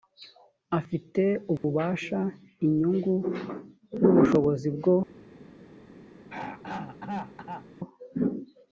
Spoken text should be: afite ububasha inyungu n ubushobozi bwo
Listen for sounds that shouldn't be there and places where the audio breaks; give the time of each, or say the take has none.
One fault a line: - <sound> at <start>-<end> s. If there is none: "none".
- dropout at 1.6-1.6 s
- throat clearing at 6.3-7.7 s